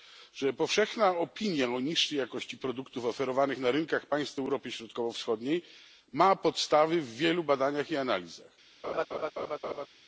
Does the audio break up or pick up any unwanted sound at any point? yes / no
yes